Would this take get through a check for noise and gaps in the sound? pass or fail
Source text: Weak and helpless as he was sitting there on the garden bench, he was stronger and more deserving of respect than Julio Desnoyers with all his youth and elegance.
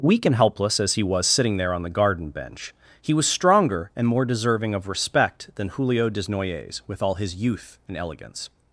pass